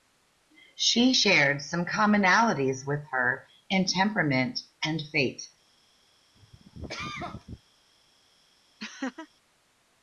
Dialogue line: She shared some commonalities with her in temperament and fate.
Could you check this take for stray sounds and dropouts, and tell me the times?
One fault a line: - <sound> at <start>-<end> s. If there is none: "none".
- cough at 6.3-7.6 s
- laugh at 8.8-9.3 s